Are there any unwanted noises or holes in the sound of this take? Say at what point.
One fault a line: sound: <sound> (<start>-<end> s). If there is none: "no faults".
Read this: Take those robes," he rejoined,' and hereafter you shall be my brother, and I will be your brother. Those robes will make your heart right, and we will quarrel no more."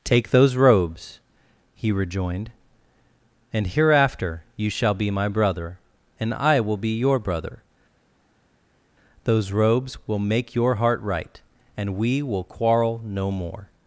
no faults